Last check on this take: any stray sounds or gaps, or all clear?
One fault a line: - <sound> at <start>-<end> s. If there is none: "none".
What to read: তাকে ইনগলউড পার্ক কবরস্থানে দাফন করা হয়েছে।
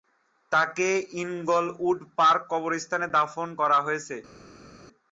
none